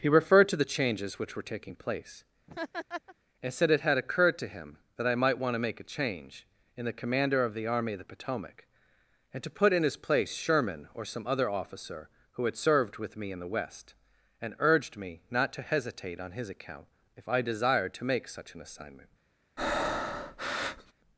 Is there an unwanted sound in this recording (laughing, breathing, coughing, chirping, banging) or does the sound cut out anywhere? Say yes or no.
yes